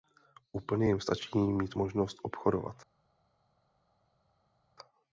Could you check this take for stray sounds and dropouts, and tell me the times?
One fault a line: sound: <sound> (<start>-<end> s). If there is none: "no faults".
no faults